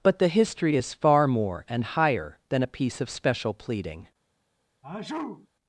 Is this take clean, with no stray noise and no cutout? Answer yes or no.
no